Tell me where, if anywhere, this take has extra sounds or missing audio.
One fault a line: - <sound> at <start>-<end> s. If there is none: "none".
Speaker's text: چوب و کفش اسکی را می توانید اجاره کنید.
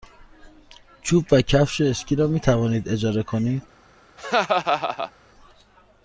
- laugh at 4.2-5.1 s